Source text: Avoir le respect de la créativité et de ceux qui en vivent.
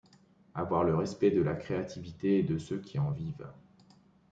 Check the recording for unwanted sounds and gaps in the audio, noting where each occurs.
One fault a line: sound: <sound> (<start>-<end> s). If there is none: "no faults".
no faults